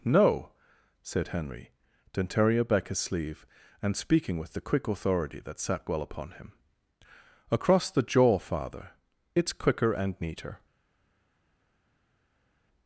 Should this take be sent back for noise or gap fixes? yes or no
no